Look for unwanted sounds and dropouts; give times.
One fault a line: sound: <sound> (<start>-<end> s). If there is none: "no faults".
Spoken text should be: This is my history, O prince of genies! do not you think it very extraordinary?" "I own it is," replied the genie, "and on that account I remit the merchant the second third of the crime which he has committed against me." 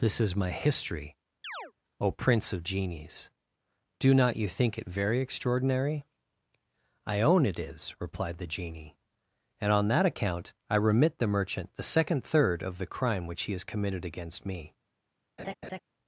sound: chirp (1.4-1.7 s)
sound: laugh (15.4-15.8 s)